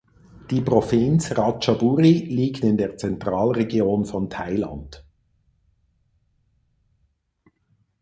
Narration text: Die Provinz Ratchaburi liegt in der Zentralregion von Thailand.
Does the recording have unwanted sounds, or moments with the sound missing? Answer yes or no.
no